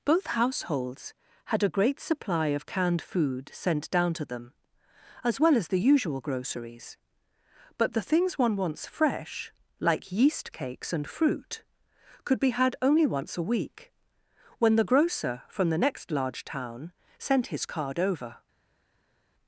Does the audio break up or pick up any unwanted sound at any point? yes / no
no